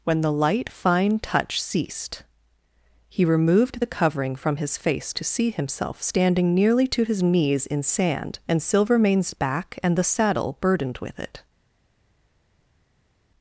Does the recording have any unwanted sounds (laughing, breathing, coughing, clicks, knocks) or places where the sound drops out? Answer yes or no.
no